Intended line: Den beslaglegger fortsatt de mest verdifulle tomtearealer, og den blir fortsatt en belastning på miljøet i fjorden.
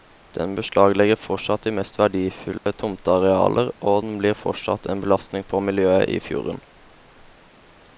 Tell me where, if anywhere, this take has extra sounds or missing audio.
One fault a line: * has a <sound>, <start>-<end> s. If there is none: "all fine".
* has a dropout, 2.6-2.7 s